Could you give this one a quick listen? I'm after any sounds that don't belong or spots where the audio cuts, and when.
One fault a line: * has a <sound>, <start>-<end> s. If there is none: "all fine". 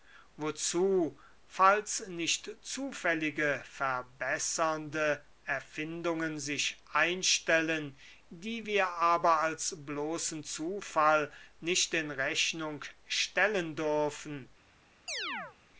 * has a chirp, 15.1-15.6 s